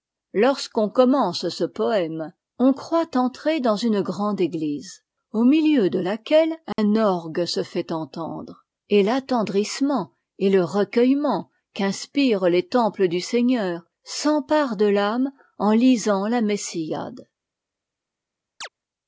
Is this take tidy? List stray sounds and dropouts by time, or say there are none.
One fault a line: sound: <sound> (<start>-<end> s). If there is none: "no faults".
sound: dropout (6.7-6.8 s)
sound: chirp (18.6-18.7 s)